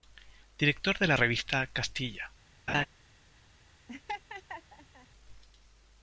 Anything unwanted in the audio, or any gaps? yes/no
yes